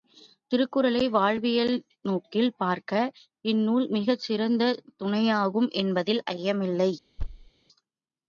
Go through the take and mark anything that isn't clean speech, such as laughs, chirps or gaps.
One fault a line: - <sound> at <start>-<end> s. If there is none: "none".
- thud at 7.2-7.5 s